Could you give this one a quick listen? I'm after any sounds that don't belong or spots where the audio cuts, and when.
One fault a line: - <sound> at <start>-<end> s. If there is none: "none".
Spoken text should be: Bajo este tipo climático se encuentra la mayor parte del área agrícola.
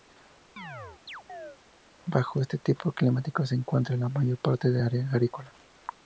- chirp at 0.6-1.6 s